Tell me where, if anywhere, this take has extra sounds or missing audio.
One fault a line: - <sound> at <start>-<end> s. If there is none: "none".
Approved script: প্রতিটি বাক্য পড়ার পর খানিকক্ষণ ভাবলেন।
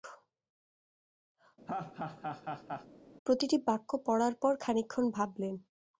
- laugh at 1.7-2.9 s